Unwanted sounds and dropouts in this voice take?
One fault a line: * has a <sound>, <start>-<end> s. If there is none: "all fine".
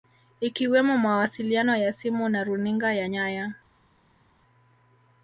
all fine